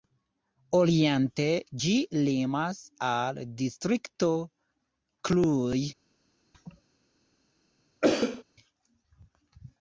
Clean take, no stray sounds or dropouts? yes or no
no